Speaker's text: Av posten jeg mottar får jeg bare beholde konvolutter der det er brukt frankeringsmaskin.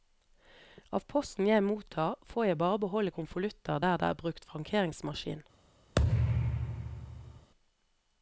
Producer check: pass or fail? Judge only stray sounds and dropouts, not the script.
fail